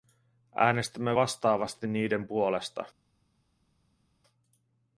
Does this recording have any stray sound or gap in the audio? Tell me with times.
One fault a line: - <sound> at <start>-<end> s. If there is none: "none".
none